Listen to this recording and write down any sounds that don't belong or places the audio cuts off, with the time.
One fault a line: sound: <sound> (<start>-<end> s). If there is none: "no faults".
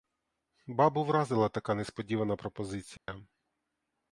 sound: dropout (3.0-3.1 s)